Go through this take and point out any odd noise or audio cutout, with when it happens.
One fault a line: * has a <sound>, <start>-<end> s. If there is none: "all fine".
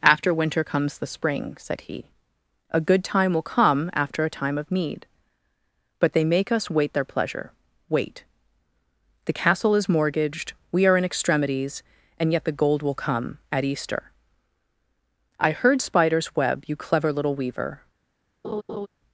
* has a laugh, 18.4-18.9 s